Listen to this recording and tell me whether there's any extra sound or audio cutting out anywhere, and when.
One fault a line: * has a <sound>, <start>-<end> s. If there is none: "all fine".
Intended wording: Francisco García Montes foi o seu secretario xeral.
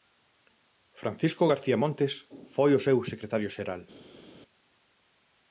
all fine